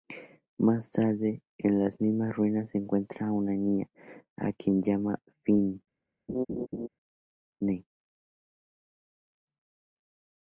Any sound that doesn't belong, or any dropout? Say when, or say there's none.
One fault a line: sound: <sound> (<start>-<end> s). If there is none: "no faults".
sound: laugh (6.3-6.9 s)